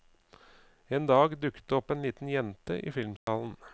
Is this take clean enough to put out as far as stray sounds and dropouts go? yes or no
no